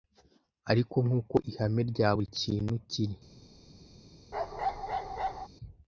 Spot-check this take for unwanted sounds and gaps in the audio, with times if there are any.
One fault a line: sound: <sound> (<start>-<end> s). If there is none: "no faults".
sound: bark (4.3-5.5 s)